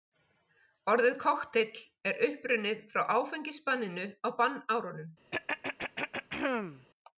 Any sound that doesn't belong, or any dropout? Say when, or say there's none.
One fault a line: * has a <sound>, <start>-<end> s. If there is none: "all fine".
* has a throat clearing, 5.3-6.9 s